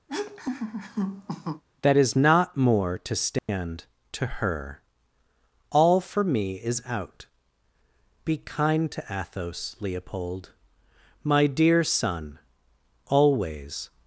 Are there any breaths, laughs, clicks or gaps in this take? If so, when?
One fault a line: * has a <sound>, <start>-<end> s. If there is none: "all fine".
* has a laugh, 0.1-1.6 s
* has a dropout, 3.4-3.5 s